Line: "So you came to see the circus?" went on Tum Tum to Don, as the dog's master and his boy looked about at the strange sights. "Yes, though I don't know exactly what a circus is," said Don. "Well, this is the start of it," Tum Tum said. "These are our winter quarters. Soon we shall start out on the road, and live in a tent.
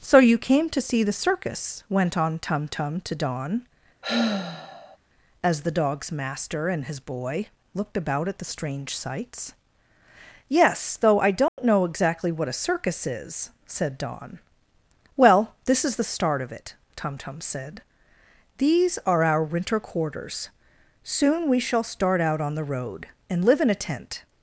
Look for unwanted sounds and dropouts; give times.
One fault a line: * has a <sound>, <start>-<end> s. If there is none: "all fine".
* has a sigh, 4.0-5.0 s
* has a dropout, 11.5-11.6 s